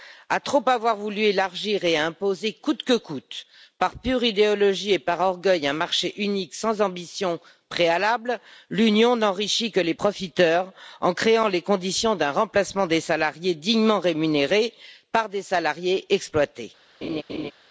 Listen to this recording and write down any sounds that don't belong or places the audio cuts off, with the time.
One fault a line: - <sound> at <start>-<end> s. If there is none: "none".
- laugh at 17.0-17.5 s